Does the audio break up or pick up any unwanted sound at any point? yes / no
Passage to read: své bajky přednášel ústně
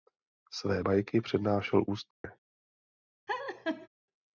yes